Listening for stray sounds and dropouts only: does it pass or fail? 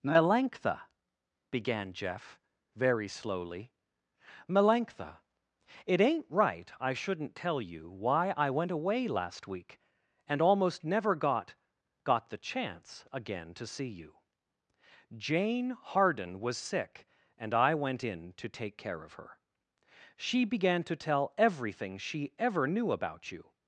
pass